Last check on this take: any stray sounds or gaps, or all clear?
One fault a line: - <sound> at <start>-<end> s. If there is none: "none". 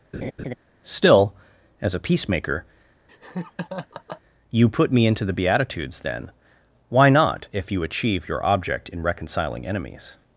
- laugh at 0.1-0.6 s
- laugh at 3.1-4.2 s